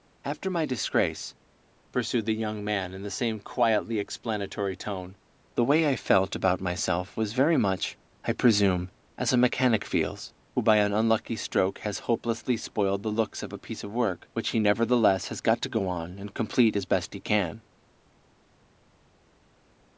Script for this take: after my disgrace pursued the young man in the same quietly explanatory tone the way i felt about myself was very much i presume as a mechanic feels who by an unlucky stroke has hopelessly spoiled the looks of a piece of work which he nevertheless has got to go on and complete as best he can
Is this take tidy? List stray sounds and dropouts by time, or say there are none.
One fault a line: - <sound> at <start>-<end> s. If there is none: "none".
none